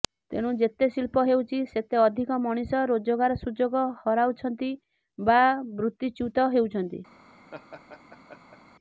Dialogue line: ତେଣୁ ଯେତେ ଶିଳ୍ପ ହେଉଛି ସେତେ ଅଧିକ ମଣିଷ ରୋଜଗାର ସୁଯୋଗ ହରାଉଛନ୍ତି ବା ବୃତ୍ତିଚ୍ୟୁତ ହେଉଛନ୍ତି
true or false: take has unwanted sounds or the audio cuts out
true